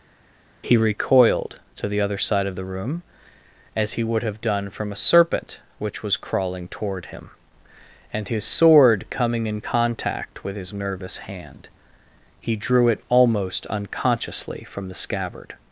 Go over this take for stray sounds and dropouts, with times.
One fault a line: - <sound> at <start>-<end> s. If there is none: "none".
none